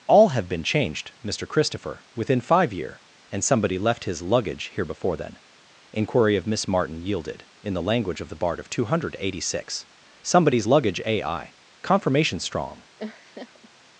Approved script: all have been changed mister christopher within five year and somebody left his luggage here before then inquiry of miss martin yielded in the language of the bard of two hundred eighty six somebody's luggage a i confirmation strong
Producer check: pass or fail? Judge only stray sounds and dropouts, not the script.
fail